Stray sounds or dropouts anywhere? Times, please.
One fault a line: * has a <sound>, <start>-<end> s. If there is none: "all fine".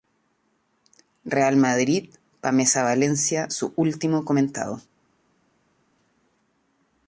all fine